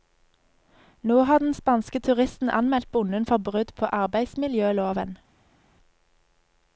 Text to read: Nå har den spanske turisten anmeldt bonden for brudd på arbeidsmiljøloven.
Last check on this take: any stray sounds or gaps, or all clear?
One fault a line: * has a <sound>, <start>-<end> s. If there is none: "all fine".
all fine